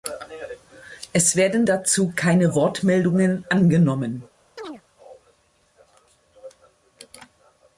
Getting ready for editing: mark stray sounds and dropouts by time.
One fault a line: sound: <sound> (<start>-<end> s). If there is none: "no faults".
sound: chirp (4.6-4.8 s)